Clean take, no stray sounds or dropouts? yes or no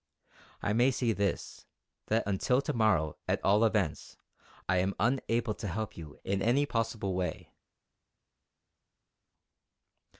yes